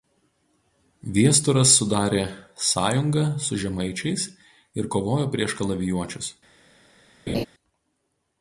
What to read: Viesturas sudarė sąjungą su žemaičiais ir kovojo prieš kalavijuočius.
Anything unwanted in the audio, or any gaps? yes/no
yes